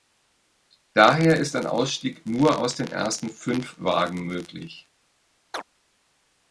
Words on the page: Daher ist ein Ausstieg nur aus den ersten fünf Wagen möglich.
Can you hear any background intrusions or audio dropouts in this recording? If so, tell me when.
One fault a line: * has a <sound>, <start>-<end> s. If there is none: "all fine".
* has a chirp, 5.5-5.6 s